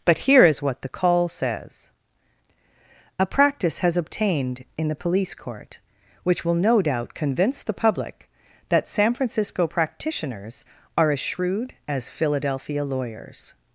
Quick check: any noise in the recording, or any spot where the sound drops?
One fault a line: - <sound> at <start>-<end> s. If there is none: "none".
none